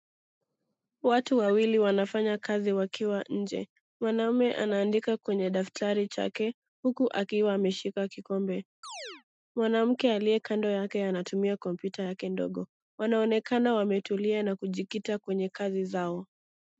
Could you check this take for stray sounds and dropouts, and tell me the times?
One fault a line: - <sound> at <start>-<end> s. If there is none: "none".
- chirp at 8.8-9.2 s